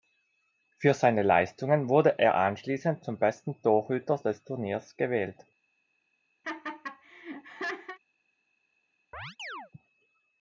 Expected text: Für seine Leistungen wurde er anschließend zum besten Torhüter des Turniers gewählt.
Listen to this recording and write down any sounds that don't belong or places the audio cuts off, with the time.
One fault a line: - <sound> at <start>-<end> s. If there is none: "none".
- laugh at 6.4-8.0 s
- chirp at 9.1-9.7 s